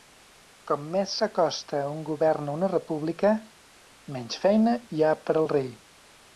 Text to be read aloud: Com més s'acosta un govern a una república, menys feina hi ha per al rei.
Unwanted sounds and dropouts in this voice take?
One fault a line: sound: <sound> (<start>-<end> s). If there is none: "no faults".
no faults